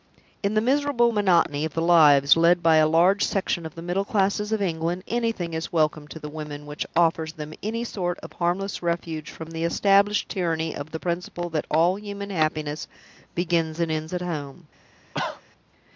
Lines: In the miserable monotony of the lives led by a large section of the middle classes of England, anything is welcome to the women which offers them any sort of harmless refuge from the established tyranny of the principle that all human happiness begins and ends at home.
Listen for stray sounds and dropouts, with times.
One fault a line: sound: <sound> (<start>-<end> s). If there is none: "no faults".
sound: cough (15.1-15.4 s)